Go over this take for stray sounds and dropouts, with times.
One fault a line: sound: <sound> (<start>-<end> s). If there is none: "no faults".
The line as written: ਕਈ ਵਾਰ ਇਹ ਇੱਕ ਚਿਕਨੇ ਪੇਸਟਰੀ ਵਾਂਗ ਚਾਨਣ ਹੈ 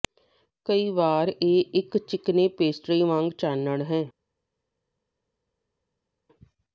no faults